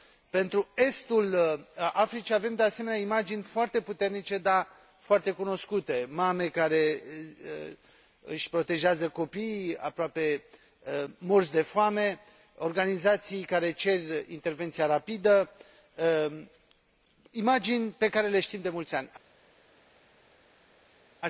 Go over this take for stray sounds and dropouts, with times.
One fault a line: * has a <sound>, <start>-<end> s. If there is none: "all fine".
all fine